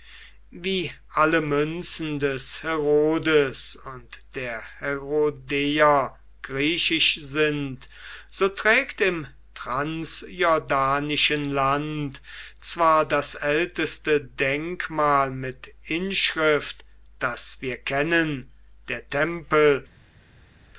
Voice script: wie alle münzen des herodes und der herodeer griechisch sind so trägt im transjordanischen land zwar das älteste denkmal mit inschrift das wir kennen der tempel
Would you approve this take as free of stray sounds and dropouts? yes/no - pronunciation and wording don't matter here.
yes